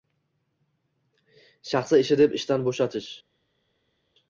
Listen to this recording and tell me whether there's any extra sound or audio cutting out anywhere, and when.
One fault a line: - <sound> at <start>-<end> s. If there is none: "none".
none